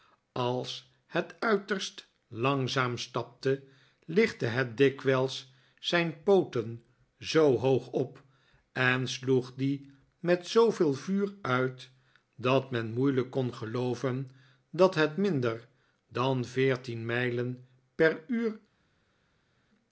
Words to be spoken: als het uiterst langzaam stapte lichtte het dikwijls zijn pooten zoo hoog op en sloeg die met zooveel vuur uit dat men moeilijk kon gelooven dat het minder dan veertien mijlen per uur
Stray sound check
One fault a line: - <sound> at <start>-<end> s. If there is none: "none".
none